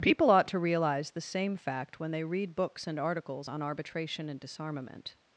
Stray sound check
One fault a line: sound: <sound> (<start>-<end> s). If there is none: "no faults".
no faults